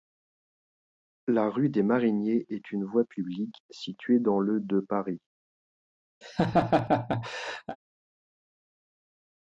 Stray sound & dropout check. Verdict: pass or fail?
fail